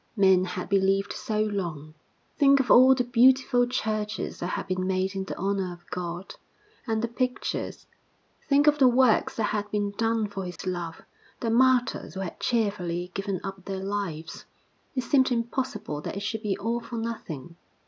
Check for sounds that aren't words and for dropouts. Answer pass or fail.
fail